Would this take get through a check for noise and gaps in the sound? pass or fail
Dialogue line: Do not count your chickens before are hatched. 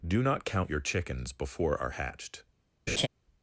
fail